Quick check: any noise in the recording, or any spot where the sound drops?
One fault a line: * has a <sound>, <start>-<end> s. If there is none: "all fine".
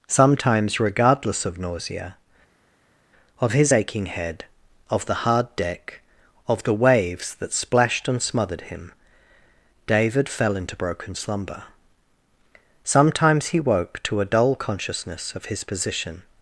all fine